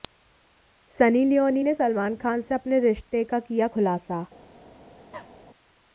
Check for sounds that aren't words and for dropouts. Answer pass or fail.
fail